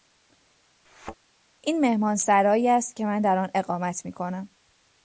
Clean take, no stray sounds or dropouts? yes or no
no